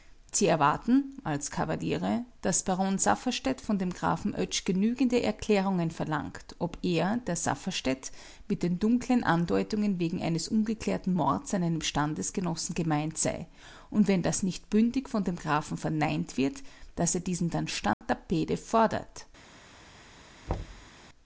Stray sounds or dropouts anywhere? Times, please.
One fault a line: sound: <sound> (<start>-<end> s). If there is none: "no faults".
sound: dropout (17.9-18.0 s)
sound: thud (20.5-20.9 s)